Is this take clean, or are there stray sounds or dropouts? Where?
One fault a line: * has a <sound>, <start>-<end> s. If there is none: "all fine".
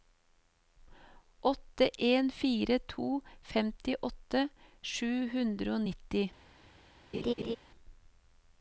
* has a laugh, 7.1-7.6 s